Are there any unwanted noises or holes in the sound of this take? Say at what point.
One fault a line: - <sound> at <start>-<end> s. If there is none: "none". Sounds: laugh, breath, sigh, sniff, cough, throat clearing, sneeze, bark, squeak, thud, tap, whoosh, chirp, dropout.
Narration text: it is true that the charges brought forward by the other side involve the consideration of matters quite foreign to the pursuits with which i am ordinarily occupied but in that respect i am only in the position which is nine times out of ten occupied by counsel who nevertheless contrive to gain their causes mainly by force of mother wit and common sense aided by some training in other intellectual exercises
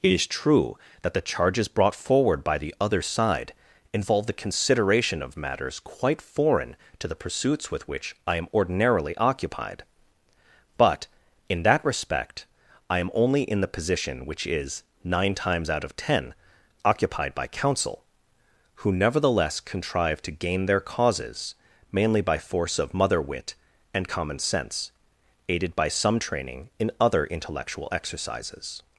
none